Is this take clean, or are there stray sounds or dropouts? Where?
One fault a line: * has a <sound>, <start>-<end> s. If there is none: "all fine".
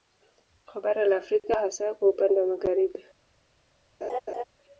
* has a laugh, 4.0-4.4 s